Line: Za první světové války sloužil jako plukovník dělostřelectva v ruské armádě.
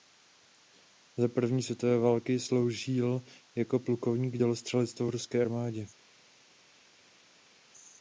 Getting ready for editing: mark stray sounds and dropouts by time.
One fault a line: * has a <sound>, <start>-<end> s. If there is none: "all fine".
all fine